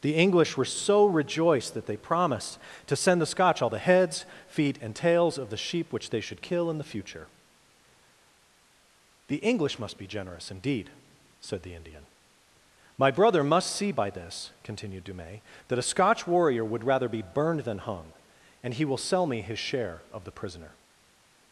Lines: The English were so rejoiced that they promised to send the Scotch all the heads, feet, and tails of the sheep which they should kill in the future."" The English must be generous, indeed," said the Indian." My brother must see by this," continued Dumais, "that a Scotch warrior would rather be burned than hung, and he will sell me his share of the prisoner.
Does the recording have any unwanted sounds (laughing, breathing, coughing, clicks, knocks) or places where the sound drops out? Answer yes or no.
no